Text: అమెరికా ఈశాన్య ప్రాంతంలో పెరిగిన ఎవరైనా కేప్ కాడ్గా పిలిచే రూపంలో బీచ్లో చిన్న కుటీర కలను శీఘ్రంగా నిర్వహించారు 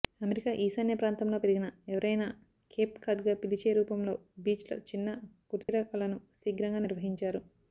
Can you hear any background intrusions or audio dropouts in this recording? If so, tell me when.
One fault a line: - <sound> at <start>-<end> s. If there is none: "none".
- dropout at 5.6-5.7 s